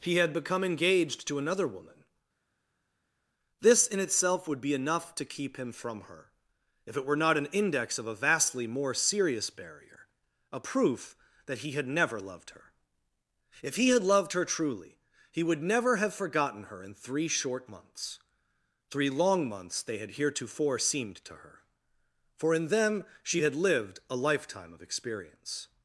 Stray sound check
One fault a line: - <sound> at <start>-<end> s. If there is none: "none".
none